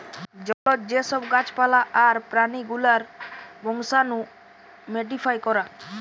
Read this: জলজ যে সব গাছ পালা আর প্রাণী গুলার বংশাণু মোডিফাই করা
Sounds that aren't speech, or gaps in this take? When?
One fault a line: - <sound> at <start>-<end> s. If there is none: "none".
- dropout at 0.5-0.7 s